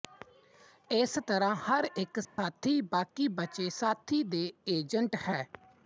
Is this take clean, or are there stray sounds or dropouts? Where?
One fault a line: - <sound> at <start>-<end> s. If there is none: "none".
- dropout at 2.2-2.4 s